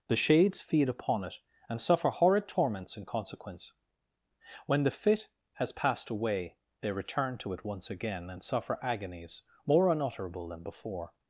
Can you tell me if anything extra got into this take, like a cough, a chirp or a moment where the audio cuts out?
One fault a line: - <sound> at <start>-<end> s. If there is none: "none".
none